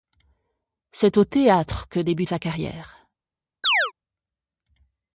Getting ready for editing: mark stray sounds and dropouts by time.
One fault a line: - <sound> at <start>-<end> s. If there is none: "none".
- chirp at 3.6-3.9 s